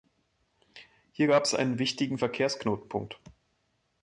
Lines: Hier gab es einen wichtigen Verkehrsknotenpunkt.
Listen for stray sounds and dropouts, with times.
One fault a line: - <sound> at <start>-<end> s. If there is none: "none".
none